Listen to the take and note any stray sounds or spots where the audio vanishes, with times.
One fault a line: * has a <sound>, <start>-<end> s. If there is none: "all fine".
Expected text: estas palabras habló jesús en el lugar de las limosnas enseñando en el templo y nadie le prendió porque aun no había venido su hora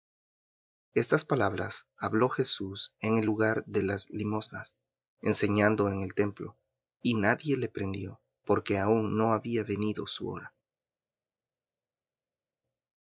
all fine